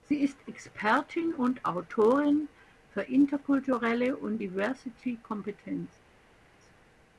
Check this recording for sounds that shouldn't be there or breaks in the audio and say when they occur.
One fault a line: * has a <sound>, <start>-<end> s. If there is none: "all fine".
all fine